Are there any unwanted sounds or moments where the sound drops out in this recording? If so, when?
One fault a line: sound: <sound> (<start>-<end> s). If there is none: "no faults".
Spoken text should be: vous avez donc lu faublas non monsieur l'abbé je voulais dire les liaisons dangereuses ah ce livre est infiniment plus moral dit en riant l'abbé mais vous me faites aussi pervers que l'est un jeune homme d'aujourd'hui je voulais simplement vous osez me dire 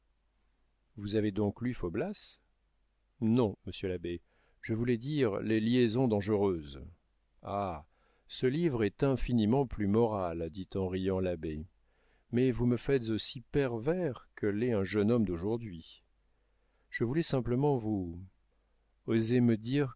no faults